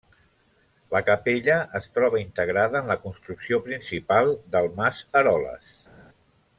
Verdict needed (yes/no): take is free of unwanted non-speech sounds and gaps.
yes